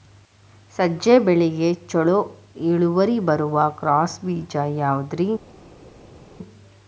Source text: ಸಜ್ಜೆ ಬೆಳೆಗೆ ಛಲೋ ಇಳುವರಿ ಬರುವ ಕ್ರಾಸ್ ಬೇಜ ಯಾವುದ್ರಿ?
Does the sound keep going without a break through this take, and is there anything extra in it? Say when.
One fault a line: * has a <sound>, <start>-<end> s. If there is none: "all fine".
all fine